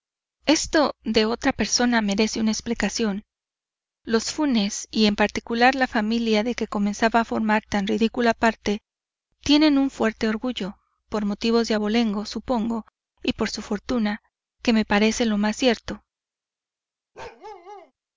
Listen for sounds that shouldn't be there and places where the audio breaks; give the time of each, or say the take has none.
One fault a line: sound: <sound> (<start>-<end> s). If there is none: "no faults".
sound: bark (17.1-17.9 s)